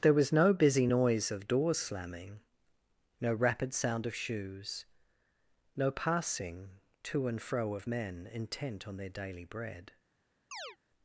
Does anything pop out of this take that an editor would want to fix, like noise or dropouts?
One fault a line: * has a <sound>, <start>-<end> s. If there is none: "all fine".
* has a chirp, 10.5-10.8 s